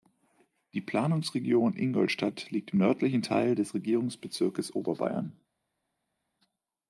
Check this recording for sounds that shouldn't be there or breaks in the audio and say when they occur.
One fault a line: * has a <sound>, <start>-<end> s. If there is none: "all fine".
all fine